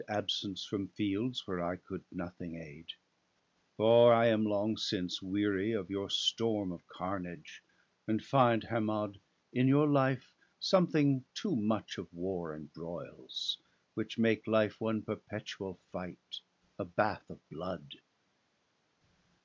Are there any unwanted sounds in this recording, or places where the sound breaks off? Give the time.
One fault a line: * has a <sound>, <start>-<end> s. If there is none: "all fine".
all fine